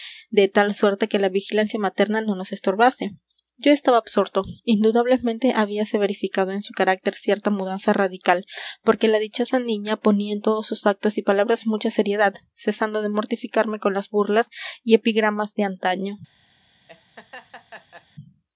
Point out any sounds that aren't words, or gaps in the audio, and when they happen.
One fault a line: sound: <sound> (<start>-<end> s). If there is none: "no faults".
sound: laugh (16.9-18.1 s)